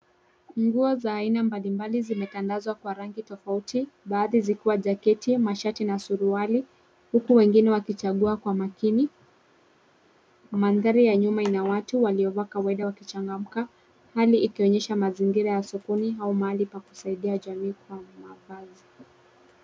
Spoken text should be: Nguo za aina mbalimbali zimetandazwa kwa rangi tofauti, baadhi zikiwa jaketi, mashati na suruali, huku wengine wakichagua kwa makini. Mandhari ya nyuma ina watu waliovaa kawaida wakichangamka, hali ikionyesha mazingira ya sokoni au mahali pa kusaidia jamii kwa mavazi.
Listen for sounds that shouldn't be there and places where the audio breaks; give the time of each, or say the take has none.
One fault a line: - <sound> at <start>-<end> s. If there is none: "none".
none